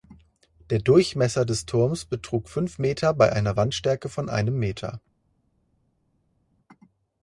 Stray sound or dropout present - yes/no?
no